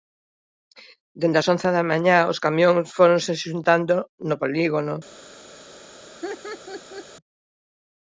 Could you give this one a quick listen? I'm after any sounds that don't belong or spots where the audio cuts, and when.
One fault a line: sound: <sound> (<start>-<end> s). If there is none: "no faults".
sound: laugh (6.2-7.1 s)